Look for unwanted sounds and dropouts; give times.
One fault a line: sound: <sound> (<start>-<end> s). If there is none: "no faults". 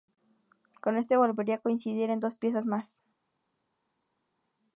no faults